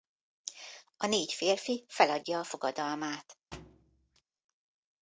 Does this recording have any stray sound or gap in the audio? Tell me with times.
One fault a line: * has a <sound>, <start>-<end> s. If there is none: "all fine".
* has a thud, 3.5-4.2 s